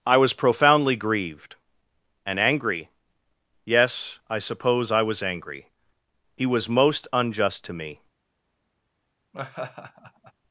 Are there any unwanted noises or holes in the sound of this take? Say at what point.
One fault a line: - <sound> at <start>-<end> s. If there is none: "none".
- laugh at 9.3-10.3 s